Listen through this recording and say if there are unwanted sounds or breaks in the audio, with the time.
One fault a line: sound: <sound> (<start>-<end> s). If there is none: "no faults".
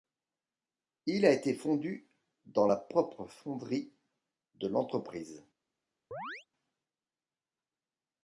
sound: chirp (6.1-6.5 s)